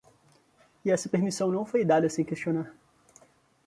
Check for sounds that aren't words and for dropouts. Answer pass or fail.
pass